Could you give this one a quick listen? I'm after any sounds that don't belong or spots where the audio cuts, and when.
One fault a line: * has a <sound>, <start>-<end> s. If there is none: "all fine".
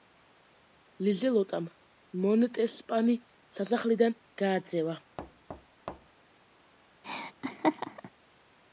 * has a thud, 5.2-6.2 s
* has a laugh, 7.0-8.1 s